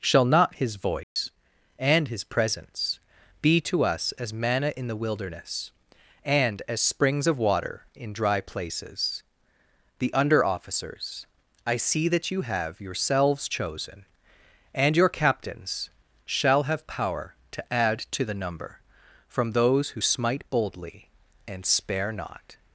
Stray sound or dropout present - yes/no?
yes